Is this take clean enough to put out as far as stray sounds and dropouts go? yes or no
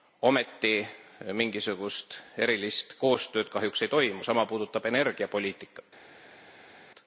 yes